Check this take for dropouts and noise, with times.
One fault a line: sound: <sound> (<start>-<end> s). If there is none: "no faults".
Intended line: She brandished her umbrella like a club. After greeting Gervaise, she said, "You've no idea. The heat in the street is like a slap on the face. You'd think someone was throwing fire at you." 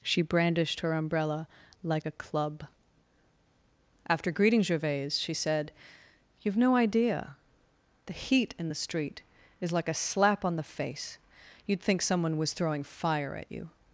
no faults